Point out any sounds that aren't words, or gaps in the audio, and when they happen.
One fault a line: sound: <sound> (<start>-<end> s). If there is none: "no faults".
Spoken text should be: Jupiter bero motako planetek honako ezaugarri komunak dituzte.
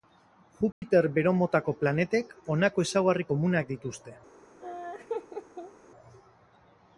sound: dropout (0.7-0.8 s)
sound: laugh (4.6-5.7 s)